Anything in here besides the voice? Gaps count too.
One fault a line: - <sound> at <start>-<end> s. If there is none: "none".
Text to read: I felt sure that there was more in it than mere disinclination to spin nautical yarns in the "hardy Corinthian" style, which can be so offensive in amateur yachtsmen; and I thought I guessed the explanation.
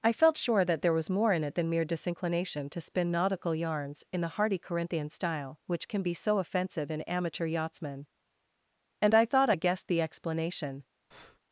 - breath at 11.1-11.4 s